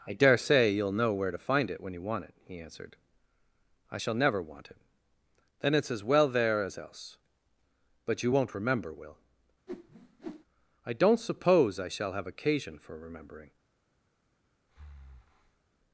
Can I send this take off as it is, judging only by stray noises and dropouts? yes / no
no